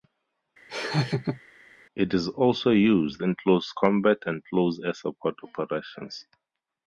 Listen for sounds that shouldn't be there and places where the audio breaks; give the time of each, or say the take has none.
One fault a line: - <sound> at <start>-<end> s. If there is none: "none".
- laugh at 0.7-1.4 s